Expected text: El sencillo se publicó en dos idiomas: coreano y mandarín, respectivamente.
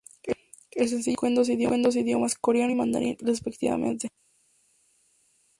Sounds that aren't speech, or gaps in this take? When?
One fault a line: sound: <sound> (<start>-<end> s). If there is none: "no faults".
no faults